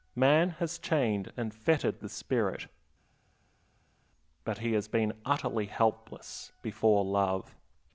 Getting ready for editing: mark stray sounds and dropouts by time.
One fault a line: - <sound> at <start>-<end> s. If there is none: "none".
none